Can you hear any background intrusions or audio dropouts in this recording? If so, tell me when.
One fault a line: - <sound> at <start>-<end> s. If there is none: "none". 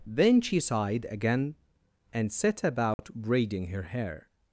- dropout at 2.9-3.0 s